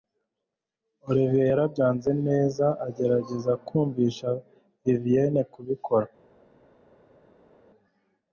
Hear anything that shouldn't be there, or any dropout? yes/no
no